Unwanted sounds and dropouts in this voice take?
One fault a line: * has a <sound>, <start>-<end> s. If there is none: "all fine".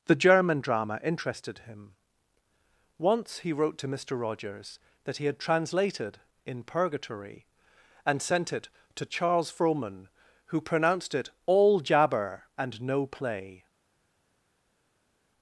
all fine